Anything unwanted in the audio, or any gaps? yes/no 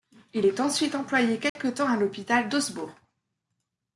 yes